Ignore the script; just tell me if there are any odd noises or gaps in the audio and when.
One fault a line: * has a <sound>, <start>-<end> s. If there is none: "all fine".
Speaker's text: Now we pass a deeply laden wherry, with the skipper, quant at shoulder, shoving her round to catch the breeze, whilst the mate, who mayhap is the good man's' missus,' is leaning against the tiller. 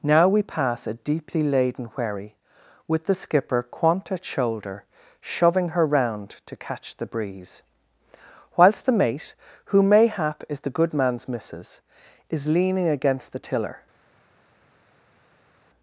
all fine